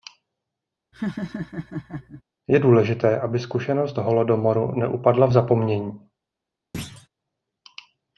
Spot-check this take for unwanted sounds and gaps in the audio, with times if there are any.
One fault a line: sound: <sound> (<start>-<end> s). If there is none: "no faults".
sound: laugh (0.9-2.2 s)
sound: thud (6.7-7.1 s)